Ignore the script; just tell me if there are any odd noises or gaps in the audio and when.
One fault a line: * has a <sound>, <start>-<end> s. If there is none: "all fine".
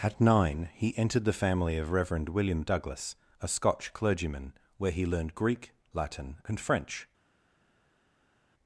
all fine